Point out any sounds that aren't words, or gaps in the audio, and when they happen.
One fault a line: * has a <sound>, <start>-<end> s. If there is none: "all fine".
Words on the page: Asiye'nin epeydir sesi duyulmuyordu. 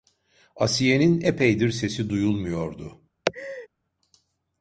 * has a laugh, 3.3-3.7 s